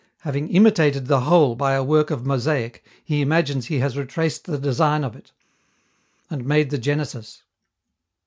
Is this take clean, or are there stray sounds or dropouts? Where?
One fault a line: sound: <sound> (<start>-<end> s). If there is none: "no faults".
no faults